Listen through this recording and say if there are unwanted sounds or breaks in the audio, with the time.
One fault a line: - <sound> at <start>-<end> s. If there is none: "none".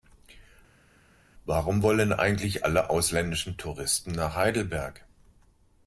none